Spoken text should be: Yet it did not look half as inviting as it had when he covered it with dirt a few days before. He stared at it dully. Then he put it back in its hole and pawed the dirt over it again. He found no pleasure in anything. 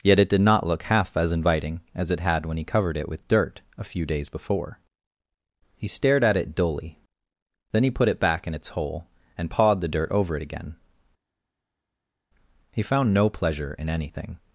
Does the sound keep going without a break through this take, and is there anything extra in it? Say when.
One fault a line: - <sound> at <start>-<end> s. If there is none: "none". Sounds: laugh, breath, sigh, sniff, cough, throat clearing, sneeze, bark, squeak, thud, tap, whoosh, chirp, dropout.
none